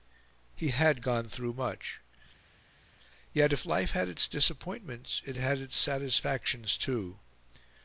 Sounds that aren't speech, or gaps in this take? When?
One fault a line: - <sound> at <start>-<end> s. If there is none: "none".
none